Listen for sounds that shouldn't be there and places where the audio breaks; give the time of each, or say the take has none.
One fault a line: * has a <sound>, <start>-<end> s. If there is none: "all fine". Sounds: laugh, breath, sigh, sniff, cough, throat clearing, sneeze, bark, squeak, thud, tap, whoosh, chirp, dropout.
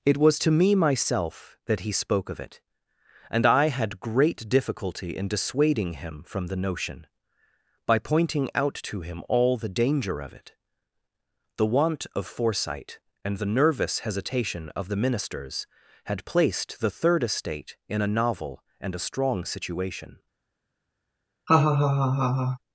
* has a laugh, 21.5-22.6 s